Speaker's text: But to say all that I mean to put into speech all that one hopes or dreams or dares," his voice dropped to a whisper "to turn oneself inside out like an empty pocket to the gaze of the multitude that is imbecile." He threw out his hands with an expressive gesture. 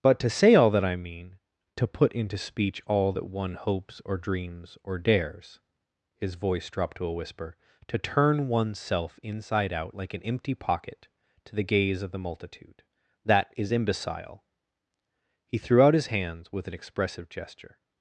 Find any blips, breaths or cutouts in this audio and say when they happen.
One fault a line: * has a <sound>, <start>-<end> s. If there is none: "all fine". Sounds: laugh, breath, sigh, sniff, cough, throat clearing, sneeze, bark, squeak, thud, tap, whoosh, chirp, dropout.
all fine